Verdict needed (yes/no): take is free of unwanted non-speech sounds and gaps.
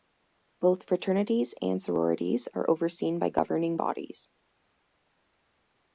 yes